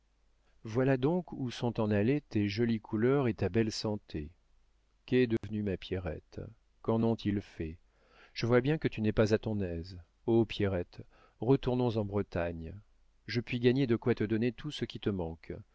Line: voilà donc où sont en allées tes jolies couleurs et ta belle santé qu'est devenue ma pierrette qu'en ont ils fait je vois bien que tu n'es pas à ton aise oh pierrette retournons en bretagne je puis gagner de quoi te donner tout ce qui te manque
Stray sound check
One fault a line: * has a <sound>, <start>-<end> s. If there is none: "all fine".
* has a dropout, 5.4-5.4 s